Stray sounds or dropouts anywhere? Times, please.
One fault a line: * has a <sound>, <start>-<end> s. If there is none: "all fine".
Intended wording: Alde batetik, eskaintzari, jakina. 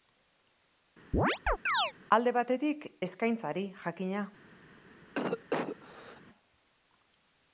* has a chirp, 1.1-1.9 s
* has a cough, 5.1-6.2 s